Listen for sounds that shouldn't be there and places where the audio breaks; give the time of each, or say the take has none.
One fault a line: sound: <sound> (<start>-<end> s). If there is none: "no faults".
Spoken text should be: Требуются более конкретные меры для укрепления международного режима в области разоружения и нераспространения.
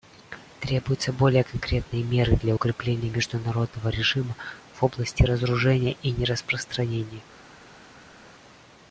no faults